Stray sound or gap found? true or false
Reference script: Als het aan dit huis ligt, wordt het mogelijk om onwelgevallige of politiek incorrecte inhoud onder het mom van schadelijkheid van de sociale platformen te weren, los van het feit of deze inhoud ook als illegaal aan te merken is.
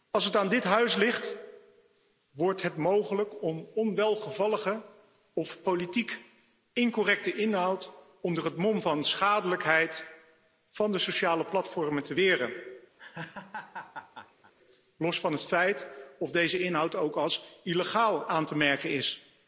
true